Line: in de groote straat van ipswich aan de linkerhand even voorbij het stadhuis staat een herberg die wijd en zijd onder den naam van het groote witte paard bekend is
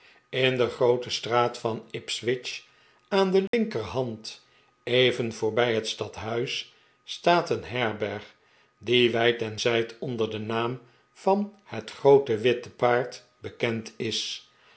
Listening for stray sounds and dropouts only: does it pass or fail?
fail